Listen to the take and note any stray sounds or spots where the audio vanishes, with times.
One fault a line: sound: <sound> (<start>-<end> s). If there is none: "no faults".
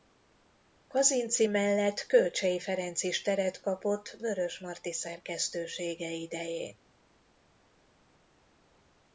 no faults